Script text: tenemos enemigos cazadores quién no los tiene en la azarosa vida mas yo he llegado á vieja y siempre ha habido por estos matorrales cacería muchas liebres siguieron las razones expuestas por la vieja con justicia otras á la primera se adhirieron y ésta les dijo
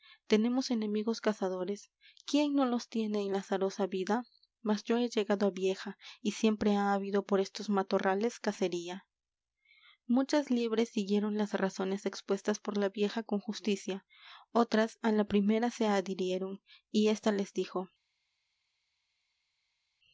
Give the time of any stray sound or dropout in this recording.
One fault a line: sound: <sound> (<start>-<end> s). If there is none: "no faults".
no faults